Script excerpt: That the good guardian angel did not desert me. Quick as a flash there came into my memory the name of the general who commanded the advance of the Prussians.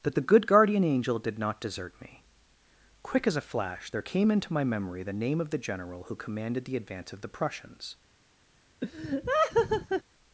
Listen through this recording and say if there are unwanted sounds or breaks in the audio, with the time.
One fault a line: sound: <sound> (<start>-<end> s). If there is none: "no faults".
sound: laugh (8.8-10.0 s)